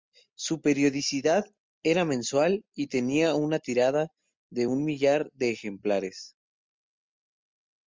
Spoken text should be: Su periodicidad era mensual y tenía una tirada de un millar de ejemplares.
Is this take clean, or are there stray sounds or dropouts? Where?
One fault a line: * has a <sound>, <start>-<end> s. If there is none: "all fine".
all fine